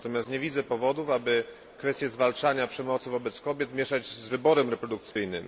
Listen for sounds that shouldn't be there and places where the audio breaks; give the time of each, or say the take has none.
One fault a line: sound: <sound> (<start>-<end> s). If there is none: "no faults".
sound: dropout (5.1-5.2 s)